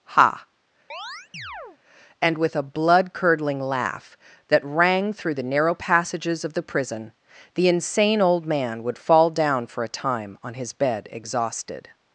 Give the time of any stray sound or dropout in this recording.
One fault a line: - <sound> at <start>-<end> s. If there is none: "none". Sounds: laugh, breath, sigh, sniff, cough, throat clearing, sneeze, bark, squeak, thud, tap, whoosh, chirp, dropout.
- chirp at 0.9-1.8 s